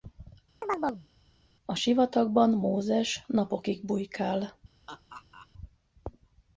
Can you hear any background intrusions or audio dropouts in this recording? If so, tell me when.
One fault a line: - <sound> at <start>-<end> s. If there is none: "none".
- chirp at 0.6-1.1 s
- laugh at 4.9-5.5 s